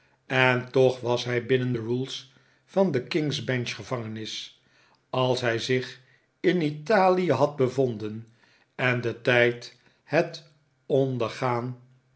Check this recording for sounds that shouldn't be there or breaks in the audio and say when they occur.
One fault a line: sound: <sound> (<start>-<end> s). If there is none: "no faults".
no faults